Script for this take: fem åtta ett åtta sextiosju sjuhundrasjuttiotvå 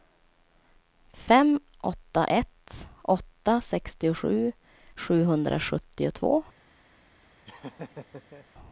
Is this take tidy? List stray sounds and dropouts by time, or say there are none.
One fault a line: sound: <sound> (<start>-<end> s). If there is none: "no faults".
sound: laugh (7.4-8.5 s)